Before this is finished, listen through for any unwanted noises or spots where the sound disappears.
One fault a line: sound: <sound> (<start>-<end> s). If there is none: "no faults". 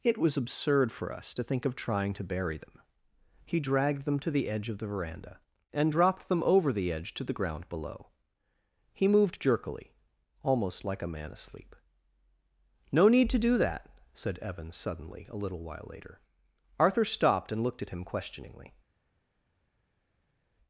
no faults